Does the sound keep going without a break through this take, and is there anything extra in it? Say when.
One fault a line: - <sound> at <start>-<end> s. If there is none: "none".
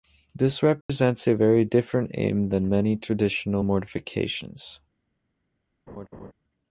- dropout at 0.8-0.9 s
- laugh at 5.9-6.3 s